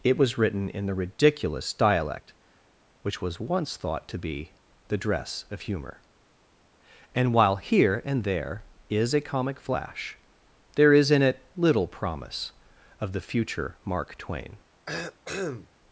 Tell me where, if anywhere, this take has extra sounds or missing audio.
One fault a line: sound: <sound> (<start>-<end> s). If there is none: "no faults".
sound: cough (14.9-15.7 s)